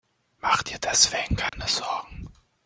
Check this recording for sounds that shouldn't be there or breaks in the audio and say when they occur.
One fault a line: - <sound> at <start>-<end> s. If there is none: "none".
- dropout at 1.5-1.5 s